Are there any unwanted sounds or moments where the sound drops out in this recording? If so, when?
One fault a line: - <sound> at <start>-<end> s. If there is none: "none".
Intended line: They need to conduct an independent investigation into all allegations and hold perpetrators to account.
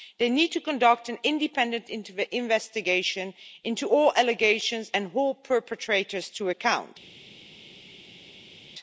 none